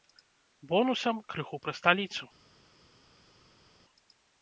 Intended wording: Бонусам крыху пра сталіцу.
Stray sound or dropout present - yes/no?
no